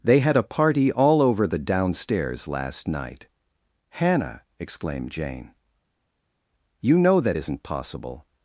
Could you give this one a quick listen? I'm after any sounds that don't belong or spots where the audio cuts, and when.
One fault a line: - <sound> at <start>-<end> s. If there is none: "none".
none